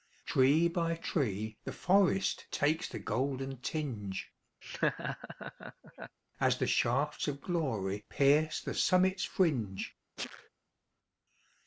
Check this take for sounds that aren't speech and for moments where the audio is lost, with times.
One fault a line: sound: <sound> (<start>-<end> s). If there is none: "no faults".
sound: laugh (4.6-6.2 s)
sound: sneeze (10.2-10.5 s)